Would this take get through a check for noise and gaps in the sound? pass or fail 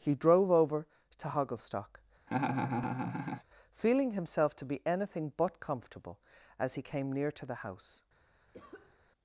fail